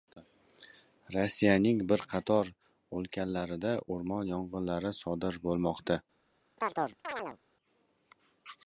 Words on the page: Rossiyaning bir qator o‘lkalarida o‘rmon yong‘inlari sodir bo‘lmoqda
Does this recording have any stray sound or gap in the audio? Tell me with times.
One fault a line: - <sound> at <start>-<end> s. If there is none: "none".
- chirp at 6.6-7.4 s